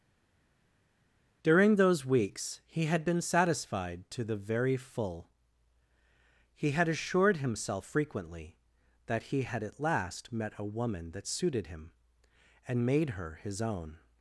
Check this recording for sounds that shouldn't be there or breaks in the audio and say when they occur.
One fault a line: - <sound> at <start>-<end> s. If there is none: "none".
none